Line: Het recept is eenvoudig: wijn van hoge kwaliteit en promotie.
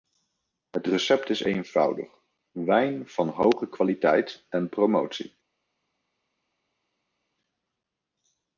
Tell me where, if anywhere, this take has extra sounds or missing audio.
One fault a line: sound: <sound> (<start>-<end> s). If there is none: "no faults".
no faults